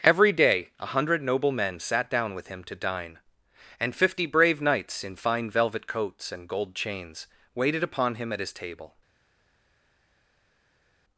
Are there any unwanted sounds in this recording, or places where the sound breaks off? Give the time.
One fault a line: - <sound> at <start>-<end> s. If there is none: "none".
none